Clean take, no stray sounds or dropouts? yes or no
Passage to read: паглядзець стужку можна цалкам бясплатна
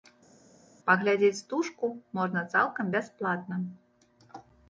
yes